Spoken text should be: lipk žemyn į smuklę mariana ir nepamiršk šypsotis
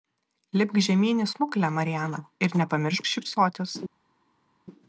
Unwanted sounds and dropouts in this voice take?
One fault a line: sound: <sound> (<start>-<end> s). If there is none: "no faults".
no faults